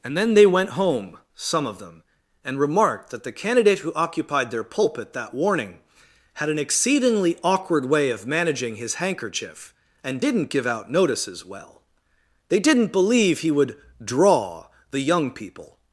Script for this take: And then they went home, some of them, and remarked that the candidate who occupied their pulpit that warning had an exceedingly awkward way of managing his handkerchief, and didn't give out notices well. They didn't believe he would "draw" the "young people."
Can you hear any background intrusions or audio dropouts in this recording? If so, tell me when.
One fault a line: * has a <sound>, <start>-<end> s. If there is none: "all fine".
all fine